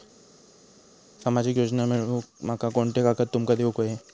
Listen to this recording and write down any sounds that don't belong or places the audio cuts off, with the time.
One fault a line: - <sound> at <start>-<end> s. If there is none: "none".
none